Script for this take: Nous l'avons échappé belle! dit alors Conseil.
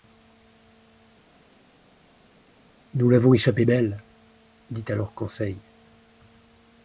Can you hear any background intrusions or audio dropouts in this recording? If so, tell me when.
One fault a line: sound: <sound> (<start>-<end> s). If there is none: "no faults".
no faults